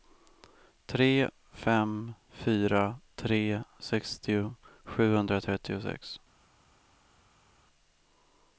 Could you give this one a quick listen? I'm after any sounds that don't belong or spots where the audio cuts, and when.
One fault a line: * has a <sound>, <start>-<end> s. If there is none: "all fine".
all fine